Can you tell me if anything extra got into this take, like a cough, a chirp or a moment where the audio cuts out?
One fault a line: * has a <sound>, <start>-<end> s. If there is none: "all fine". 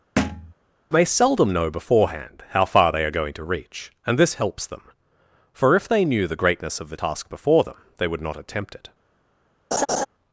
* has a thud, 0.2-0.5 s
* has a laugh, 9.7-10.1 s